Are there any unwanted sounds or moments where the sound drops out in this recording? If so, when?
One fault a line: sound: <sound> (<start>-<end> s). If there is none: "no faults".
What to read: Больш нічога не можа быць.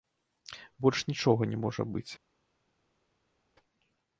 no faults